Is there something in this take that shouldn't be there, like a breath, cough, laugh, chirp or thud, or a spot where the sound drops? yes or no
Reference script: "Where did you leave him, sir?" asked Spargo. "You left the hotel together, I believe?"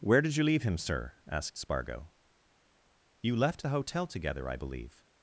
no